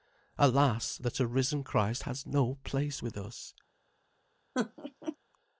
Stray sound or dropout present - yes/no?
yes